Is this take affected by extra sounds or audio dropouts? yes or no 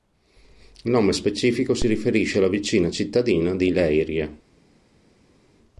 no